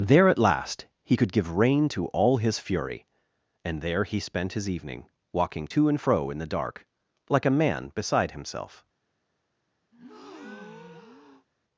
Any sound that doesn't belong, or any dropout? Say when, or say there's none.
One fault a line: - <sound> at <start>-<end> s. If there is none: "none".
- breath at 9.9-11.5 s